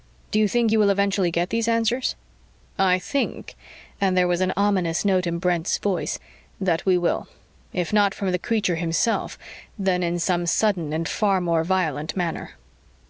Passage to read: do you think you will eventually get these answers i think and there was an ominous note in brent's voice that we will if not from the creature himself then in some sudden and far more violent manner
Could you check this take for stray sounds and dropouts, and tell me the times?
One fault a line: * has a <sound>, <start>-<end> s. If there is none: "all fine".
all fine